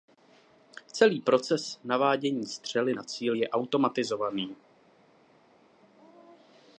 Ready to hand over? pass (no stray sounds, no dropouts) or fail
pass